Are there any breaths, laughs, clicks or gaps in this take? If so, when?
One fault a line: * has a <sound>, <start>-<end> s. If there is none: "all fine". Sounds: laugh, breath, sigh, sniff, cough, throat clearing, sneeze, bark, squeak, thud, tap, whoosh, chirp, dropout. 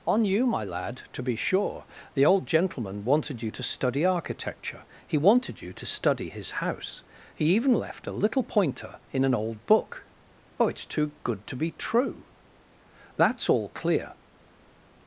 all fine